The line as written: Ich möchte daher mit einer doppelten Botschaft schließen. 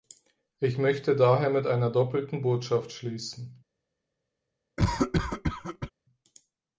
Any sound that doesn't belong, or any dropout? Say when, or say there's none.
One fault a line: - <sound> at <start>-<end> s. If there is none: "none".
- cough at 4.8-5.9 s